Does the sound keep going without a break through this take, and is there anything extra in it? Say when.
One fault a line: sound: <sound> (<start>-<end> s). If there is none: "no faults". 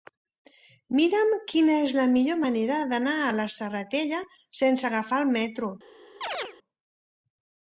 sound: chirp (6.2-6.5 s)